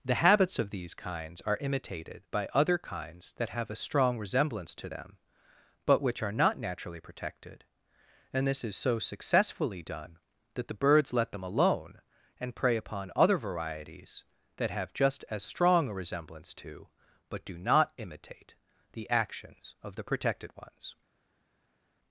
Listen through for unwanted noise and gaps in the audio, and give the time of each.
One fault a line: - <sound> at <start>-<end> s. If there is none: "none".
none